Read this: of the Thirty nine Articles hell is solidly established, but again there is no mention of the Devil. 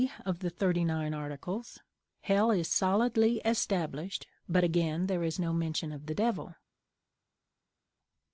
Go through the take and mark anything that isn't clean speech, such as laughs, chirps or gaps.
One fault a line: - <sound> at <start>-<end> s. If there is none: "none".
none